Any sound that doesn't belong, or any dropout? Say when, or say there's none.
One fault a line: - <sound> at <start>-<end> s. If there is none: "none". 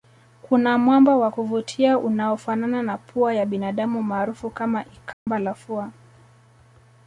- dropout at 5.1-5.3 s